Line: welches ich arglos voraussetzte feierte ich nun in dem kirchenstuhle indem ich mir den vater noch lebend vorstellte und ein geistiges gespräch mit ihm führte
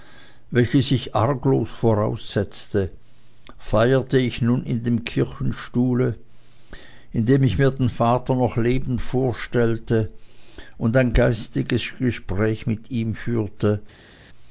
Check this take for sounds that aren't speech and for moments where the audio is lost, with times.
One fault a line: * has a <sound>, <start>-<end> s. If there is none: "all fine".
all fine